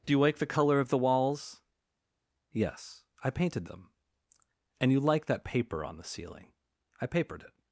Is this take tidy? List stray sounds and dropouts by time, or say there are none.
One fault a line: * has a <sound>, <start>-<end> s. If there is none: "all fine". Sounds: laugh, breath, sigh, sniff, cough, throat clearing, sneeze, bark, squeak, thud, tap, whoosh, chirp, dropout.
all fine